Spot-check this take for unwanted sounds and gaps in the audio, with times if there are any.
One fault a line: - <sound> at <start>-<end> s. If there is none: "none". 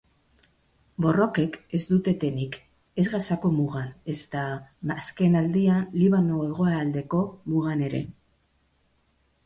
none